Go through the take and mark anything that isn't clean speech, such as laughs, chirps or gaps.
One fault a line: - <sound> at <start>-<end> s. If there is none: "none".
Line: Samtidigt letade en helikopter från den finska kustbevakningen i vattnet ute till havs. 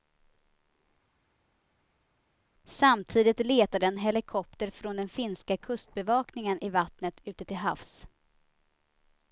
none